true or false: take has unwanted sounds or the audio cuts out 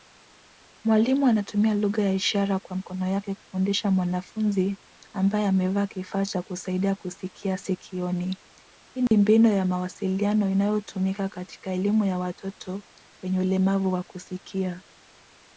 true